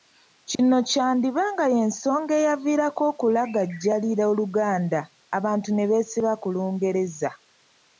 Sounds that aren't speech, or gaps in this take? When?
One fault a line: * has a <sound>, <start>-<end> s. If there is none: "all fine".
* has a dropout, 0.5-0.6 s